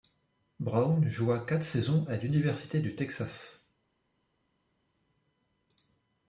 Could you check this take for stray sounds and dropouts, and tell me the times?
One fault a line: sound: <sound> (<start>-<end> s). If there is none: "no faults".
no faults